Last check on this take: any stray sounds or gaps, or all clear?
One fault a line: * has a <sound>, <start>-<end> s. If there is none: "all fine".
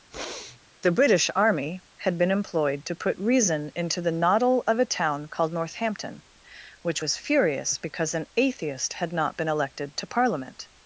* has a sniff, 0.1-0.6 s